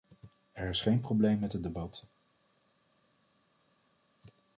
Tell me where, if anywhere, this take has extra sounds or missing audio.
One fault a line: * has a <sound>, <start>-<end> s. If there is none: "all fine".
all fine